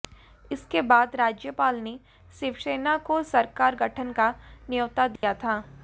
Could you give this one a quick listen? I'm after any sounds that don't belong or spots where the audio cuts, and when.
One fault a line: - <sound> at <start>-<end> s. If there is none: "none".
- dropout at 5.2-5.2 s